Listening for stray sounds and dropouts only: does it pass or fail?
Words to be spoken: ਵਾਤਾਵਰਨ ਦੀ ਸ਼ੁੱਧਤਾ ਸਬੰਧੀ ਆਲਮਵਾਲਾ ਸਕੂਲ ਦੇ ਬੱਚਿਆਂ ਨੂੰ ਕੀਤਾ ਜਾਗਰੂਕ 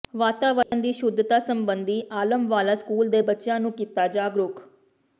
fail